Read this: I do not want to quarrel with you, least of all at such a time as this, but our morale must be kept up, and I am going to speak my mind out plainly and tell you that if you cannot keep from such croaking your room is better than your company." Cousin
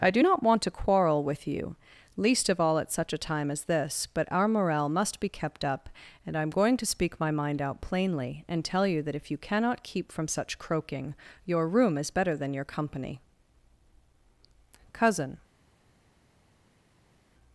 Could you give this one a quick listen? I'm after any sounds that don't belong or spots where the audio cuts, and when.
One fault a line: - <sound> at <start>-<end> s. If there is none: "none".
none